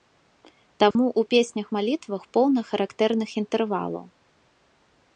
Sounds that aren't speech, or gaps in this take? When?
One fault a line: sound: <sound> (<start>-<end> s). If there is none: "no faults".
sound: dropout (0.9-1.0 s)